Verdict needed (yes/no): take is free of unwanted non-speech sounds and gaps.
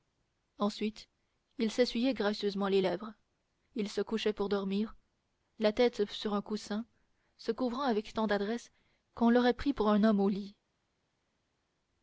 yes